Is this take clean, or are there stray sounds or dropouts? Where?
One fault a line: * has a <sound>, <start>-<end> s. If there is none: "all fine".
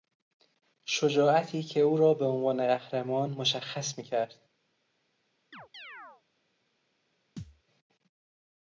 * has a chirp, 5.5-6.2 s
* has a thud, 7.4-7.6 s